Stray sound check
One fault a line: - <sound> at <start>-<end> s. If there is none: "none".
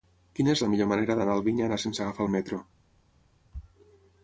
none